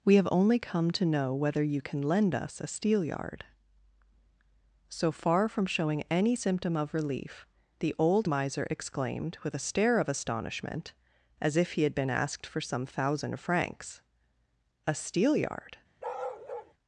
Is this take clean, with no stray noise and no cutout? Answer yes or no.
no